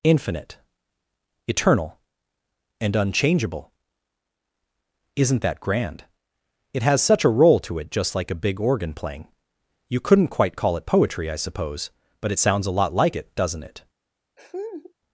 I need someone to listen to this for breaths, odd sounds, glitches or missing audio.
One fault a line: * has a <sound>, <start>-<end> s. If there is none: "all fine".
* has a laugh, 14.4-14.9 s